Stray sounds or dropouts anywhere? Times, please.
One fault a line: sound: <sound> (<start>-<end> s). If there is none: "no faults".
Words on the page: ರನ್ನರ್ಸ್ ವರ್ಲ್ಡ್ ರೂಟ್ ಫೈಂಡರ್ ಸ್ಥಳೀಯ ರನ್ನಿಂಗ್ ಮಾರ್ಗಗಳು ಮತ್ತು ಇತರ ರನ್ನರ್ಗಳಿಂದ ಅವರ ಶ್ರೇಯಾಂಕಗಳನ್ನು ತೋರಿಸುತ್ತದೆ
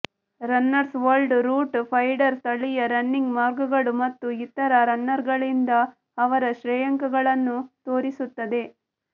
no faults